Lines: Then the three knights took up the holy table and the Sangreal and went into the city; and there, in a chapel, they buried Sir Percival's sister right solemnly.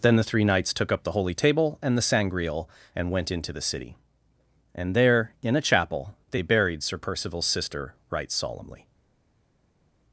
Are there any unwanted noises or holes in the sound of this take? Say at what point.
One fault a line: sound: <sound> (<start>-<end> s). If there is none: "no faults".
no faults